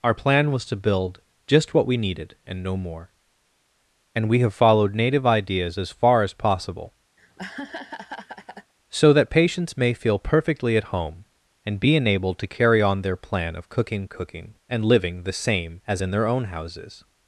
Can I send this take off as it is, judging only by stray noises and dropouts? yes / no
no